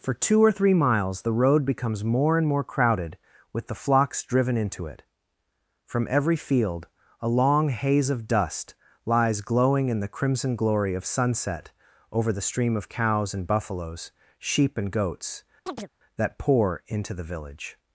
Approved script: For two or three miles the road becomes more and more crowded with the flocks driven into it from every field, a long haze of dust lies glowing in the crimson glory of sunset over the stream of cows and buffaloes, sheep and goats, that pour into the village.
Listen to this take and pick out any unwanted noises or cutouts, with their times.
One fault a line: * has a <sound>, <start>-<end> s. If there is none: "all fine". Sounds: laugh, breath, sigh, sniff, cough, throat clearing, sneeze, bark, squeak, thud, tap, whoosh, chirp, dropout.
* has a chirp, 15.7-15.9 s